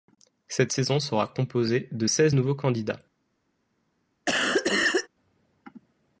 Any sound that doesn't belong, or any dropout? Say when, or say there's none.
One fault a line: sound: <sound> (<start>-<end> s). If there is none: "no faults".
sound: cough (4.3-5.1 s)